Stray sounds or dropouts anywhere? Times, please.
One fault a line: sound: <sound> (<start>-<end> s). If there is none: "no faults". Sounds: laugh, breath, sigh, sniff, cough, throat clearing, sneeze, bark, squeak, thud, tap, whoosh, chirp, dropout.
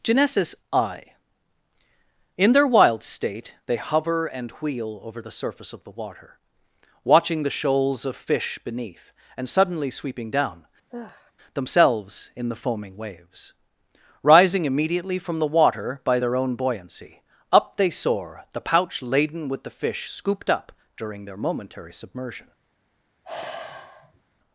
sound: sigh (10.9-11.3 s)
sound: sigh (23.2-24.2 s)